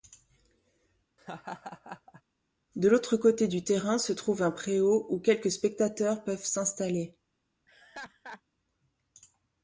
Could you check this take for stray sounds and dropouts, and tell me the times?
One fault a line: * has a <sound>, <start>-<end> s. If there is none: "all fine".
* has a laugh, 1.2-2.2 s
* has a laugh, 7.7-8.4 s